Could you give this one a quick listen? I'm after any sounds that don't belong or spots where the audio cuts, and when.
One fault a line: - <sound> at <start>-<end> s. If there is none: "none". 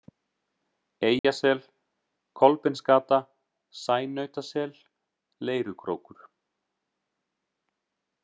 - dropout at 1.2-1.2 s